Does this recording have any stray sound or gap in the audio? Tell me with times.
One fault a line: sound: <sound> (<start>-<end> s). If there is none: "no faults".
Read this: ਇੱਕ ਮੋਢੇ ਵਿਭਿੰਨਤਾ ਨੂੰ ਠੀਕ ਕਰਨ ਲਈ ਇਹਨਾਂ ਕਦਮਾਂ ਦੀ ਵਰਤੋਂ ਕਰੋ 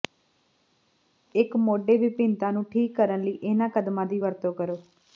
no faults